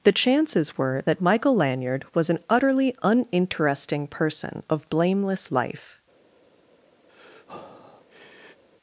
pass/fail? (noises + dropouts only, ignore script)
fail